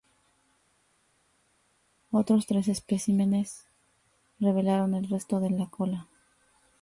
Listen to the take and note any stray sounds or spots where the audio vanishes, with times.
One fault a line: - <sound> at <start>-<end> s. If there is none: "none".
none